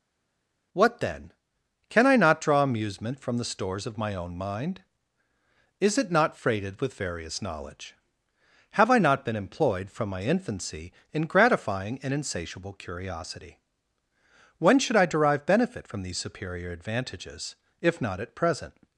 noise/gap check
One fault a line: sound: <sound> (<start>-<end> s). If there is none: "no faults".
no faults